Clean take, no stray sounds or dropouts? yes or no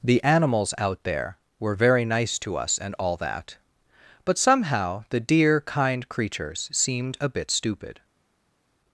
yes